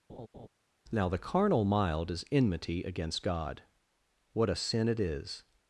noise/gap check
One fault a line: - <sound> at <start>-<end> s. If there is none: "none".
- laugh at 0.1-0.5 s